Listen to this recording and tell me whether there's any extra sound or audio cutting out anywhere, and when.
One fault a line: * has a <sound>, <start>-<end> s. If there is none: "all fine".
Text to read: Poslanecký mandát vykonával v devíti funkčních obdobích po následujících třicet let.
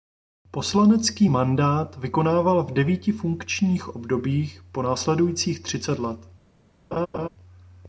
* has a laugh, 6.9-7.3 s